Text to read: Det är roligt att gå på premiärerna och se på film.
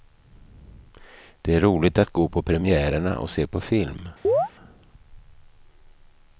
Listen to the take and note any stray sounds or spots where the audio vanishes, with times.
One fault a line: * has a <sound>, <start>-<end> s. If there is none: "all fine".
* has a chirp, 4.2-4.5 s